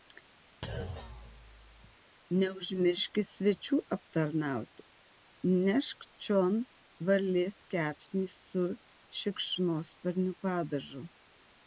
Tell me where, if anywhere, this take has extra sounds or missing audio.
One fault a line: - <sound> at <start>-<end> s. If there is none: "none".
- thud at 0.6-2.0 s